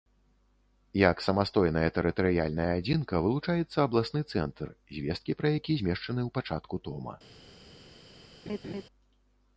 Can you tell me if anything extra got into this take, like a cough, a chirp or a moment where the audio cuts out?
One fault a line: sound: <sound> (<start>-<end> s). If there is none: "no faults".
sound: laugh (8.5-8.8 s)